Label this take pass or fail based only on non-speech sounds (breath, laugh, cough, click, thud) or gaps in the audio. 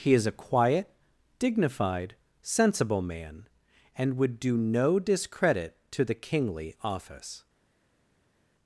pass